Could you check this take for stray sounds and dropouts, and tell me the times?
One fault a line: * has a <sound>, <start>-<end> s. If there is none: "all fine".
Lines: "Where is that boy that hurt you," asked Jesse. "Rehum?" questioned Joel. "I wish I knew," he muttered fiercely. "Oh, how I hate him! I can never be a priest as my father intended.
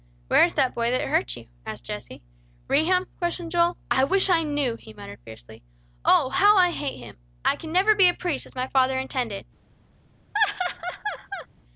* has a laugh, 10.3-11.5 s